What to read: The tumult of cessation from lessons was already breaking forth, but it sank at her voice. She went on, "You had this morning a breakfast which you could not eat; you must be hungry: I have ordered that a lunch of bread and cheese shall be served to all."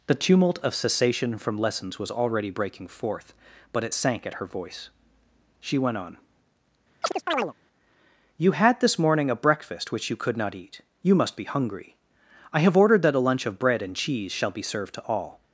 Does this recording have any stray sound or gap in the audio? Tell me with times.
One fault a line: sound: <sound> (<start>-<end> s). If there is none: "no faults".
sound: chirp (7.0-7.5 s)